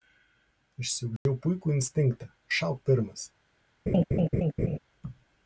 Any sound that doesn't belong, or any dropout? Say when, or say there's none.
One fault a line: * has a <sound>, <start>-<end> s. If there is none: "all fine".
* has a dropout, 1.2-1.3 s
* has a laugh, 3.9-4.8 s